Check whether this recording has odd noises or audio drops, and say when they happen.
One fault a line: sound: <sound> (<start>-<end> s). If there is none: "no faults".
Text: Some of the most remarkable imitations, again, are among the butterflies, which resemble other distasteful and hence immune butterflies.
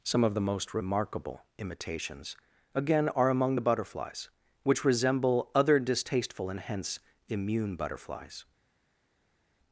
no faults